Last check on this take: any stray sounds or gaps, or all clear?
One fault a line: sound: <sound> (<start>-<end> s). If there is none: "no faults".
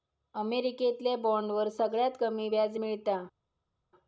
no faults